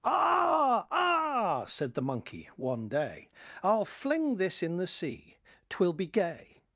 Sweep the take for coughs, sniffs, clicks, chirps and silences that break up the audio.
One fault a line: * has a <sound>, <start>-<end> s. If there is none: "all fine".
all fine